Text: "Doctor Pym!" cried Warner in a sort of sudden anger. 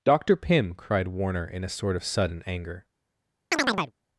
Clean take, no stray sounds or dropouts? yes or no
no